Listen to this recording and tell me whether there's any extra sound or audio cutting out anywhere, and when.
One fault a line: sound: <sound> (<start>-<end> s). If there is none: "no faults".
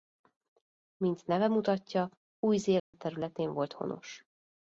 sound: dropout (2.8-2.9 s)